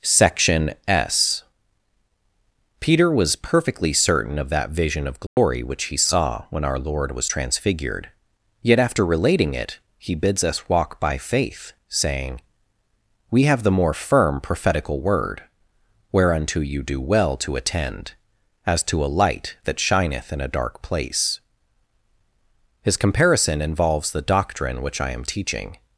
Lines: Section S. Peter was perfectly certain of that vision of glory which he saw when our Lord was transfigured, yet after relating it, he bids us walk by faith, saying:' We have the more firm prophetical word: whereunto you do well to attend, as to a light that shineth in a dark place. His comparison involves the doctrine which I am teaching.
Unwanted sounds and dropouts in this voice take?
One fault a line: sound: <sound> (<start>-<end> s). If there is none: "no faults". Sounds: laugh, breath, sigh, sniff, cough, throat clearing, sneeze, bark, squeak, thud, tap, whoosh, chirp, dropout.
sound: dropout (5.3-5.4 s)